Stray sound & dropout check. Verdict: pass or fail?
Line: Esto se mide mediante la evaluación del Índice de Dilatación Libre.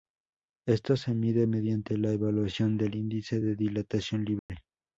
fail